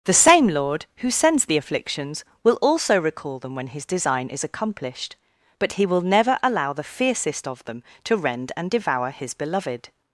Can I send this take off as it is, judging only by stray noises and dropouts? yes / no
yes